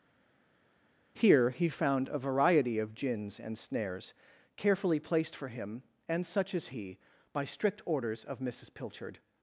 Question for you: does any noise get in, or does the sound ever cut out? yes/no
no